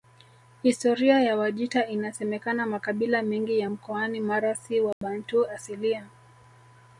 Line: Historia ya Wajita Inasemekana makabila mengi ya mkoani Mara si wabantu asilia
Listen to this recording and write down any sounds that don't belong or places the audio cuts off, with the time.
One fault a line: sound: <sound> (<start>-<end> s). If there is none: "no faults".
sound: dropout (4.9-5.0 s)